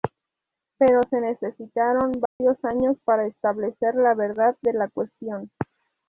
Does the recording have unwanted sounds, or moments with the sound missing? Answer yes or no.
yes